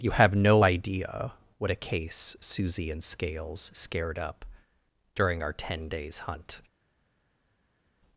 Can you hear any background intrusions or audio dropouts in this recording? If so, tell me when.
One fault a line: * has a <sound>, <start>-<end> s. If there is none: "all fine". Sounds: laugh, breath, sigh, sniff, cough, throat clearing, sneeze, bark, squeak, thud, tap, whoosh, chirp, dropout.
all fine